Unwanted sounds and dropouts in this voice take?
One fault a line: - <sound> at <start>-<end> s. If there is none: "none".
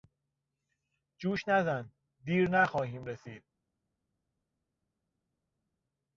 none